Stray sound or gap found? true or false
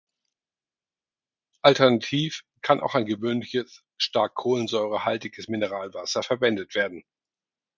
false